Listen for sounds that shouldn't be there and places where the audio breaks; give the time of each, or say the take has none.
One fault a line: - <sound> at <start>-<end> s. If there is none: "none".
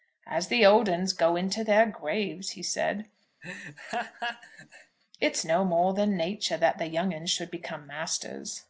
- laugh at 3.4-5.0 s